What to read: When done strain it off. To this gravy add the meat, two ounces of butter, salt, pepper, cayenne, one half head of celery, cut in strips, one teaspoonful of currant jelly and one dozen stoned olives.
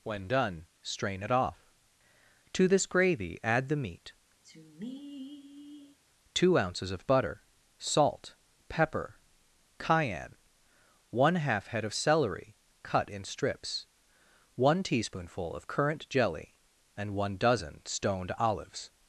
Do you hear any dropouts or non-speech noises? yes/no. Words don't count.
yes